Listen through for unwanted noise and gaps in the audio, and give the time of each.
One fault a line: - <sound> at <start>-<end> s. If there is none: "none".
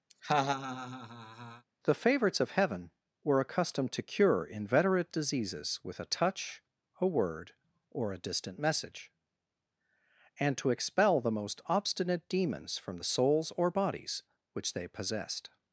- laugh at 0.1-1.6 s